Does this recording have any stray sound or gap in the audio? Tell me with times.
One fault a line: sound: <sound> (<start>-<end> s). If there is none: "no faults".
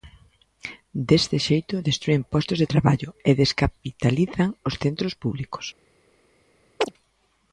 sound: chirp (6.8-6.9 s)